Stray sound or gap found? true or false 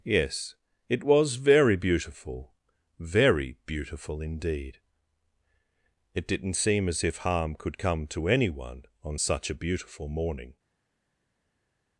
false